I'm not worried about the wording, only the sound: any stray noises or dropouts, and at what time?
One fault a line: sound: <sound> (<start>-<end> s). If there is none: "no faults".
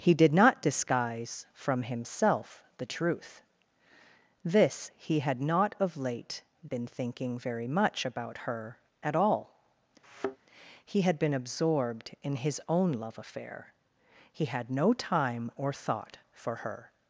sound: thud (10.0-10.4 s)